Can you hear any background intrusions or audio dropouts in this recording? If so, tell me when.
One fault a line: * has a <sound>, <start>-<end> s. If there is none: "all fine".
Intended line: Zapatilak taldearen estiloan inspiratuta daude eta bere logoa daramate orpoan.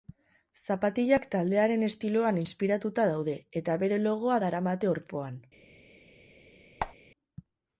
* has a squeak, 6.8-6.9 s